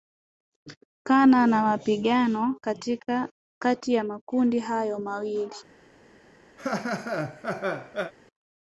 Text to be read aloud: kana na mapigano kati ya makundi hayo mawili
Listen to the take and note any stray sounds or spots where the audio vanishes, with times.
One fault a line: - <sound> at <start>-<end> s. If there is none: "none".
- laugh at 6.6-8.1 s